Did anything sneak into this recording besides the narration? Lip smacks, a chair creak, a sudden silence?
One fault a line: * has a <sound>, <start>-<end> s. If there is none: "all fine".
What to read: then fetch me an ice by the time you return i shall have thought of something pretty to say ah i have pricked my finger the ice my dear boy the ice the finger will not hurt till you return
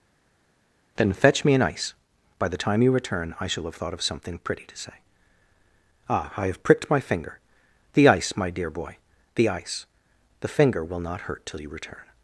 all fine